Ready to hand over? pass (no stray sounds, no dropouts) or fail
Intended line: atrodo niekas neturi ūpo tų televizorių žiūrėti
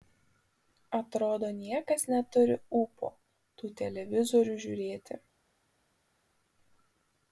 pass